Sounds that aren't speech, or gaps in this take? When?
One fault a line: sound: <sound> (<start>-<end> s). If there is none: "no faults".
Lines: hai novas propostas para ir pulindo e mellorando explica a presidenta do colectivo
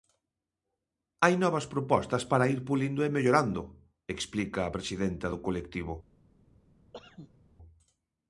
sound: cough (6.9-7.4 s)